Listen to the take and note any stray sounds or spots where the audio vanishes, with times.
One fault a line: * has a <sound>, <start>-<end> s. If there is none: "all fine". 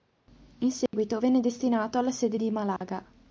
* has a dropout, 0.9-0.9 s
* has a dropout, 2.8-2.8 s